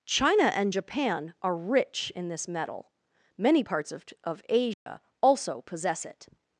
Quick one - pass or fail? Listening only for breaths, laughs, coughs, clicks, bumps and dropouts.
fail